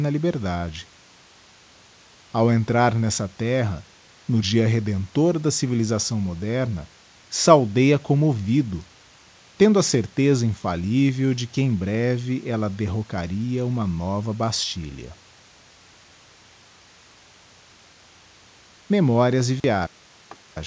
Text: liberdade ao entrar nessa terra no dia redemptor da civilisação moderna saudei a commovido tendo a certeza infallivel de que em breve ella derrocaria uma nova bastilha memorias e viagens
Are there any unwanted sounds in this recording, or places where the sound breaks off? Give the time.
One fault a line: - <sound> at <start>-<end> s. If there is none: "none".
- dropout at 19.6-19.6 s
- laugh at 20.3-20.4 s